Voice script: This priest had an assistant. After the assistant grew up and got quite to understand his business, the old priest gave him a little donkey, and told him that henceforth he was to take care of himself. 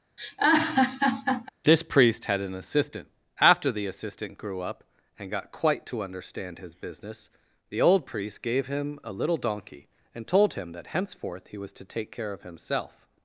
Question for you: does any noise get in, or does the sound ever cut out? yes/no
yes